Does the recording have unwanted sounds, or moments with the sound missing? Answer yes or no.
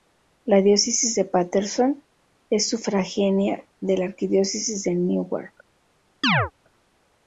yes